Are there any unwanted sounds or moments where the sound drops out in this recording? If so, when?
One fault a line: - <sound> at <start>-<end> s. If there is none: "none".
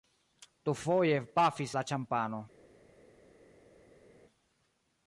none